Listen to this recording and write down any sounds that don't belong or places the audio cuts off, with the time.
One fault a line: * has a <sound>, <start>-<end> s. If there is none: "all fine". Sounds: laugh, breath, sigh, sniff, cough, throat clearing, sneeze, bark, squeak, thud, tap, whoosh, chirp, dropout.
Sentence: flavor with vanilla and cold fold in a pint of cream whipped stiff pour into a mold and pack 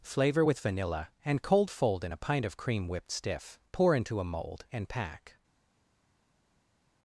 all fine